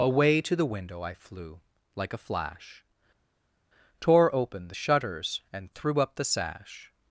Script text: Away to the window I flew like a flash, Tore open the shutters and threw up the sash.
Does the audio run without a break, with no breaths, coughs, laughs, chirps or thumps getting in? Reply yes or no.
yes